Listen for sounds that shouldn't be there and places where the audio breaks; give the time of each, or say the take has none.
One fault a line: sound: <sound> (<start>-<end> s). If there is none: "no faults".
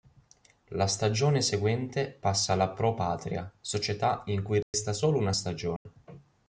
sound: dropout (4.6-4.7 s)
sound: dropout (5.8-5.9 s)